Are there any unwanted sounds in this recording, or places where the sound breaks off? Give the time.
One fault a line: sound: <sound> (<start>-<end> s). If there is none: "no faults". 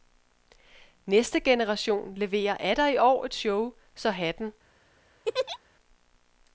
sound: laugh (5.2-5.6 s)